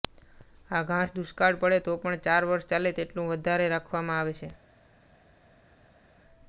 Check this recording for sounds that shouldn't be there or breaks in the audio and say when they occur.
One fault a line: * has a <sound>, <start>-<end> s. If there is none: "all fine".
all fine